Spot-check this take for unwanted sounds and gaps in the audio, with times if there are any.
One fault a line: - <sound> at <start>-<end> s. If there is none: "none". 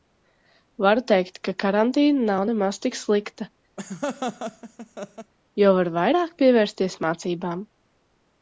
- laugh at 3.8-5.3 s